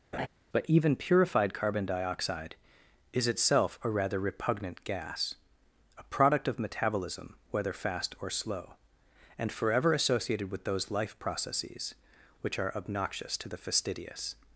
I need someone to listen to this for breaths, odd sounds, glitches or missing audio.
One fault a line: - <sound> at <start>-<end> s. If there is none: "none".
- laugh at 0.1-0.3 s